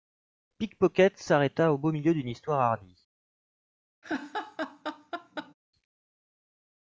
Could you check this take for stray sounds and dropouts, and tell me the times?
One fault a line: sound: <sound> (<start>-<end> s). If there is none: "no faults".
sound: laugh (4.0-5.5 s)